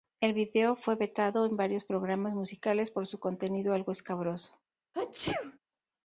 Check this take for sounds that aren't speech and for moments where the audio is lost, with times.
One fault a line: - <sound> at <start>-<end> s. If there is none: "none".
- sneeze at 4.9-5.6 s